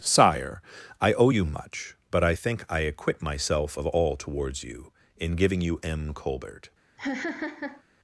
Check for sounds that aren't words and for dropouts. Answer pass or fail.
fail